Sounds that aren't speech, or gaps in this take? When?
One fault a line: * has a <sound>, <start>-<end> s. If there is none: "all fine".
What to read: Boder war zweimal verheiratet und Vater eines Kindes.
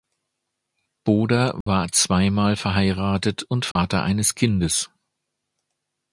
* has a dropout, 1.6-1.7 s
* has a dropout, 3.7-3.8 s